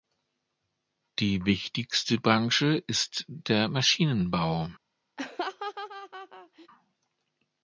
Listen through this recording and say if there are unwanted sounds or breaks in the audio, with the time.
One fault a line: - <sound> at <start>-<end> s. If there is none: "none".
- laugh at 5.2-6.7 s